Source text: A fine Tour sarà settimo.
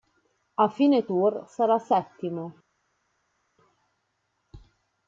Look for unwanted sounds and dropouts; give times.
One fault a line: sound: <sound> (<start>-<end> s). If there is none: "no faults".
no faults